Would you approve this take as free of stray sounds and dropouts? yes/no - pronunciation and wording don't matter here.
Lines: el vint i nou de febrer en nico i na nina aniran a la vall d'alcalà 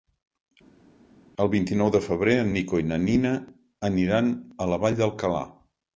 yes